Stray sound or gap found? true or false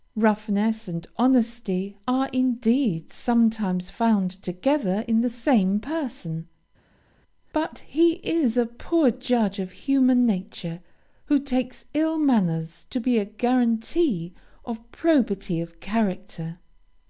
false